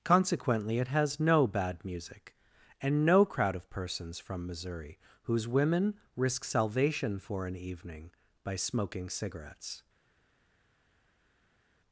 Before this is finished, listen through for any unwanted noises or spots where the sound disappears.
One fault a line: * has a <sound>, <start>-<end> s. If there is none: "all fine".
all fine